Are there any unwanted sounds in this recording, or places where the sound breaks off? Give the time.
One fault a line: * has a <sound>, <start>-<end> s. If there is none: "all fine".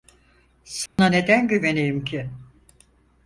* has a dropout, 0.9-1.0 s